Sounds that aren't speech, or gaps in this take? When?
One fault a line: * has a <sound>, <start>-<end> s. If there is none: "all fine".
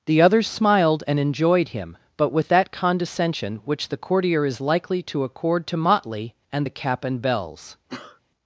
* has a sneeze, 7.9-8.2 s